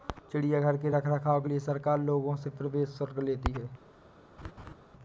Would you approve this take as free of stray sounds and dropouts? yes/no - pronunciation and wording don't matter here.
no